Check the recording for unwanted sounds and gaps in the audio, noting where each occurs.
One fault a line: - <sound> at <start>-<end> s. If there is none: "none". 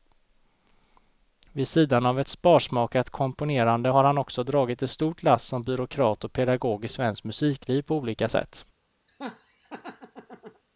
- laugh at 9.1-10.6 s